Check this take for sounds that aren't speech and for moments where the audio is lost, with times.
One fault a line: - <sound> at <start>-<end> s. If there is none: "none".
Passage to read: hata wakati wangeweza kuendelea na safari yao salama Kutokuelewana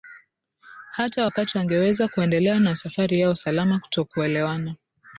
none